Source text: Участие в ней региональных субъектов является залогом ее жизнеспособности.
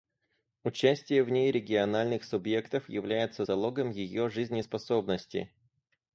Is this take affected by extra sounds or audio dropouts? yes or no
no